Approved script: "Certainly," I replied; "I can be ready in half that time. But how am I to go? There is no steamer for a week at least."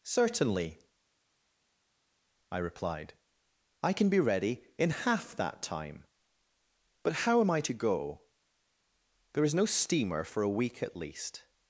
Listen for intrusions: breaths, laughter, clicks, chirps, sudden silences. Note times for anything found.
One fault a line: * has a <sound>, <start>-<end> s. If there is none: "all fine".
all fine